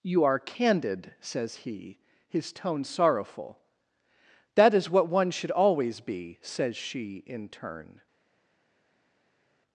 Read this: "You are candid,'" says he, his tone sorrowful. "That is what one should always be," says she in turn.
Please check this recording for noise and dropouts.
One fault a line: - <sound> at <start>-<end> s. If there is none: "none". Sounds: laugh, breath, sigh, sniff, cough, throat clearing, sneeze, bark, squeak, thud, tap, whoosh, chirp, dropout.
none